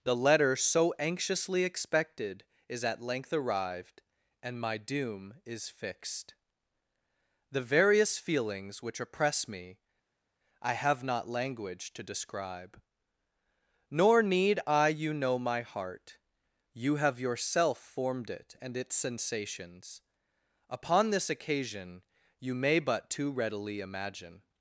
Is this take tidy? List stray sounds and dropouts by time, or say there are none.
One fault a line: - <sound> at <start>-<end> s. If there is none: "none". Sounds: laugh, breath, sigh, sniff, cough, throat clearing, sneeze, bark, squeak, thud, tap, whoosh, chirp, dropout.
none